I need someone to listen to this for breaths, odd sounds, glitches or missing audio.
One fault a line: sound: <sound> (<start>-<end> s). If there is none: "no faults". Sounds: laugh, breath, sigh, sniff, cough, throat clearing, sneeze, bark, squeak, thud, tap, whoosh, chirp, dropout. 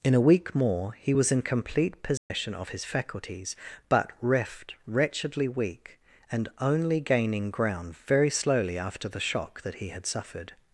sound: dropout (2.2-2.3 s)